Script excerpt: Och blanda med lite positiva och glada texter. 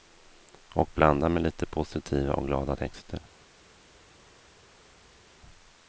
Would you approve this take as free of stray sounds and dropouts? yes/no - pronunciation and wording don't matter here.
yes